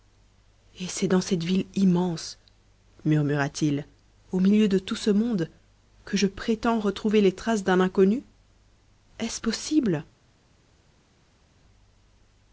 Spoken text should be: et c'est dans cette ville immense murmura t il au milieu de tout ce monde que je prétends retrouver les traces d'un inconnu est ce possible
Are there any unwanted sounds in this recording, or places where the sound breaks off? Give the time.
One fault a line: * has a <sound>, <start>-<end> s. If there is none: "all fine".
all fine